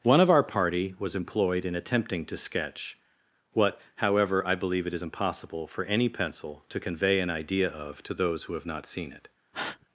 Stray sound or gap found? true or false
true